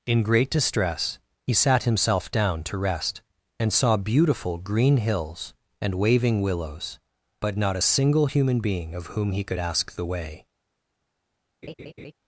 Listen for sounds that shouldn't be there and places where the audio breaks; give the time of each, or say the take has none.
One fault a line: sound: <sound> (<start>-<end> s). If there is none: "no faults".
sound: laugh (11.6-12.1 s)